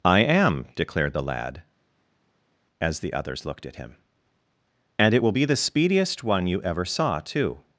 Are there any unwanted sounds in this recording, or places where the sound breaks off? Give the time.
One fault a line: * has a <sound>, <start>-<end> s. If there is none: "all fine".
all fine